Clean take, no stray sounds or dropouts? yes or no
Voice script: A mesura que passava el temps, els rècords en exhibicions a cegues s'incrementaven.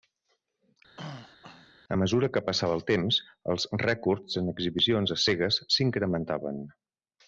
no